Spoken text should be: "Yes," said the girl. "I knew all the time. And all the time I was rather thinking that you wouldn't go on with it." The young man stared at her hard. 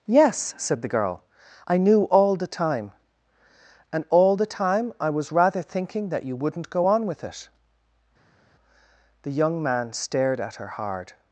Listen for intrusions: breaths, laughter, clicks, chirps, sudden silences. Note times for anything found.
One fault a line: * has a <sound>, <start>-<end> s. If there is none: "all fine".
all fine